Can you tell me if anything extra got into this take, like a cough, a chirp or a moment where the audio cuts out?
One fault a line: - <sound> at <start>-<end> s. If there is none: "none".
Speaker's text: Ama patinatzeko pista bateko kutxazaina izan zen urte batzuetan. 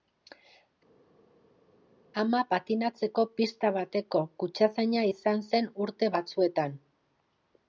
none